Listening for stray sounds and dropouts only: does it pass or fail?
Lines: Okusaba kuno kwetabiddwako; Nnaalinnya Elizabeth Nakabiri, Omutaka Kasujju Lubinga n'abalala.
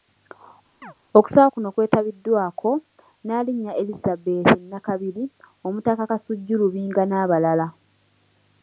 fail